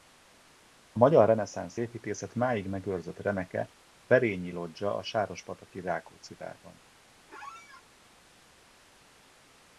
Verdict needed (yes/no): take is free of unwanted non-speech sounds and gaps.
no